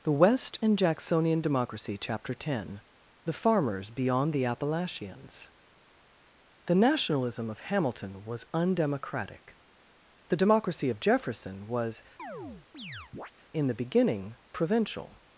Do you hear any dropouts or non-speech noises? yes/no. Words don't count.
yes